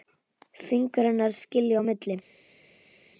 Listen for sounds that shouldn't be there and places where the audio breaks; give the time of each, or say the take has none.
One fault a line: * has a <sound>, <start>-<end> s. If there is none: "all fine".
all fine